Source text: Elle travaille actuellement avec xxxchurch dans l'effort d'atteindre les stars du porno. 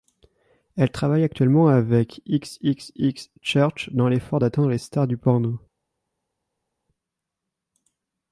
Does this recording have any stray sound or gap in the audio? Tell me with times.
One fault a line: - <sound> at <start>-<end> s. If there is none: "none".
none